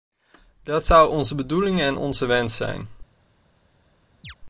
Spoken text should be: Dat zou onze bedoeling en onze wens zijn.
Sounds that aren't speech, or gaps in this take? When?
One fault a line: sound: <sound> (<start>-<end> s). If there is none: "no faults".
sound: chirp (4.2-4.3 s)